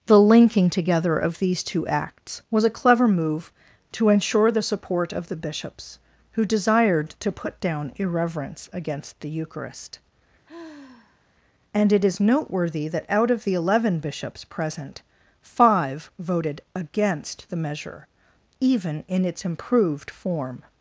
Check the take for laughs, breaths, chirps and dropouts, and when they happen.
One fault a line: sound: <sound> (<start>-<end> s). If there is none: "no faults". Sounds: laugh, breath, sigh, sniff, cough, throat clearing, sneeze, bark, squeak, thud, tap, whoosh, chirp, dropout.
sound: sigh (10.4-11.3 s)